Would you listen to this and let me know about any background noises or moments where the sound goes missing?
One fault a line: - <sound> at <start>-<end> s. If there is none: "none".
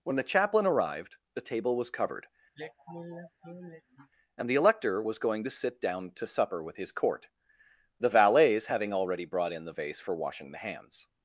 - sigh at 2.5-4.1 s